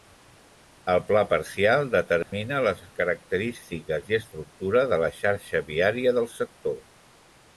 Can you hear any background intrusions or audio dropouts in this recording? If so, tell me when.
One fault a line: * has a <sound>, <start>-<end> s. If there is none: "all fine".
* has a dropout, 2.2-2.3 s